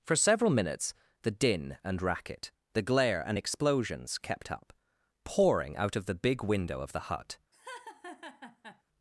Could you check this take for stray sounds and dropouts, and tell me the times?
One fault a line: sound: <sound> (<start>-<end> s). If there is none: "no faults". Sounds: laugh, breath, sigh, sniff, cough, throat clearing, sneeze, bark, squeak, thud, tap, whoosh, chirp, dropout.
sound: laugh (7.5-8.8 s)